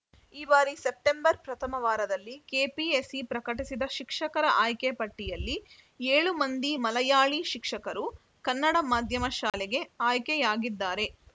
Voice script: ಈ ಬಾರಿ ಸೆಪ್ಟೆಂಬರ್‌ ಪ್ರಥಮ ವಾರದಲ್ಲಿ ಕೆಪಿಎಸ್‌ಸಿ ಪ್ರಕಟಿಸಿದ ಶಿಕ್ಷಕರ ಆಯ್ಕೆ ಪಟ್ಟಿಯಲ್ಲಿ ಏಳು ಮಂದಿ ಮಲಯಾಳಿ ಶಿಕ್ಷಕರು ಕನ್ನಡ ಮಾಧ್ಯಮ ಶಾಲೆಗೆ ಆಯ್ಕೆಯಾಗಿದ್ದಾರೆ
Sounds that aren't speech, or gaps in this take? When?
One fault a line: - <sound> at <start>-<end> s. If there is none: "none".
- dropout at 9.5-9.5 s